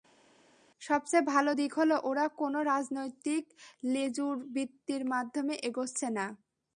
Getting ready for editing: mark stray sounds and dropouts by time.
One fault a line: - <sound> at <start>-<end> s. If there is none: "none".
none